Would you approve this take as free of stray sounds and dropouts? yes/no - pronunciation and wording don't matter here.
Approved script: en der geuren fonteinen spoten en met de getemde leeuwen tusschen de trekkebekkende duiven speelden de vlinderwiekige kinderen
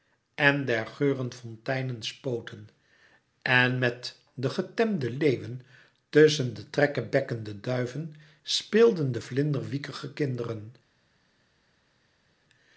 yes